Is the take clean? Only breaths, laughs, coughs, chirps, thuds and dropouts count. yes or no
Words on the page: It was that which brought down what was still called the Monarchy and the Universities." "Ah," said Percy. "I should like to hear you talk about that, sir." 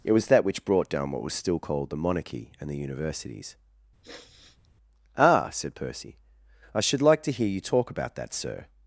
no